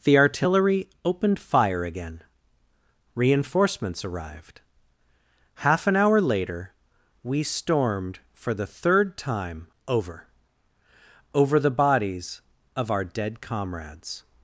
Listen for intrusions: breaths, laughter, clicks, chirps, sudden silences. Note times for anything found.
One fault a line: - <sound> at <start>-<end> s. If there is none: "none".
none